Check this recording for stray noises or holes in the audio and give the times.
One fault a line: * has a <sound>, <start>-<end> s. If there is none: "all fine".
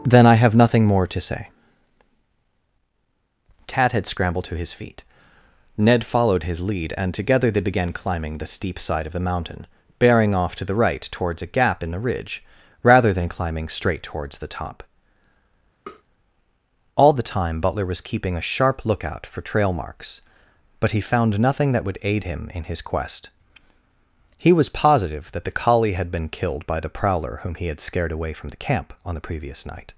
* has a tap, 15.9-16.0 s